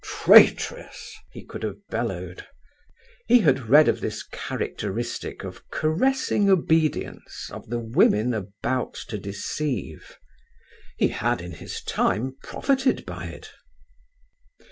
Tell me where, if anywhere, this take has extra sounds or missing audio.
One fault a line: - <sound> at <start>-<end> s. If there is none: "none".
none